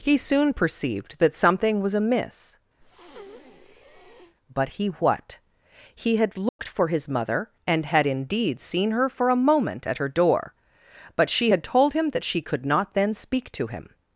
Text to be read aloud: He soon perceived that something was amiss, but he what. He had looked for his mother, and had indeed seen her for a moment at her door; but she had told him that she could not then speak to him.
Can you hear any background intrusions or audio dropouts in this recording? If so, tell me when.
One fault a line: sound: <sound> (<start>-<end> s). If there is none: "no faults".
sound: breath (2.8-4.4 s)
sound: dropout (6.5-6.6 s)